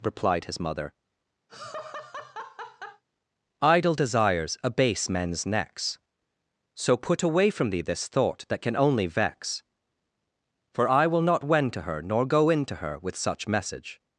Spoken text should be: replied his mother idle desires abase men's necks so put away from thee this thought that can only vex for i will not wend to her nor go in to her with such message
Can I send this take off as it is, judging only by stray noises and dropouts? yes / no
no